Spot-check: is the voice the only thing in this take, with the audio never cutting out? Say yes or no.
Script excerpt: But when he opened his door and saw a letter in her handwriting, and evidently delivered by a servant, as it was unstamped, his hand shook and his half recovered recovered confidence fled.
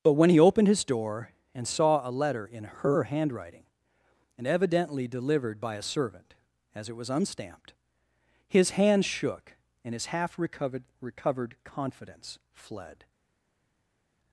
yes